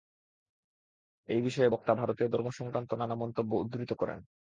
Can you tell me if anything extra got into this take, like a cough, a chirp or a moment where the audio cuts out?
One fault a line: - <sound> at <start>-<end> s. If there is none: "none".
none